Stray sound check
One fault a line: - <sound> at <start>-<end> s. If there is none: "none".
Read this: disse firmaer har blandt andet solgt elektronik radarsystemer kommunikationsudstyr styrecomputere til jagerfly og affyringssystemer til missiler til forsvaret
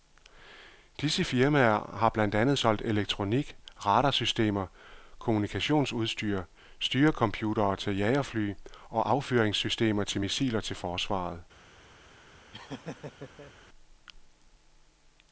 - laugh at 12.5-13.5 s